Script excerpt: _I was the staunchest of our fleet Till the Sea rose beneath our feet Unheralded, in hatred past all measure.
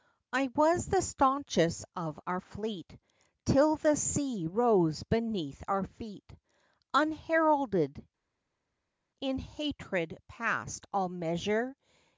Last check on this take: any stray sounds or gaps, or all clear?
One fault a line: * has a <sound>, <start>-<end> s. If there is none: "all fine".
all fine